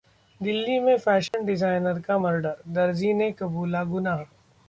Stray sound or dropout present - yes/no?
yes